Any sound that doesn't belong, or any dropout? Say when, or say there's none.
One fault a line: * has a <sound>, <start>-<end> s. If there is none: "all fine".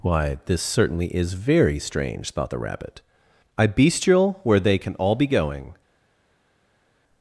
all fine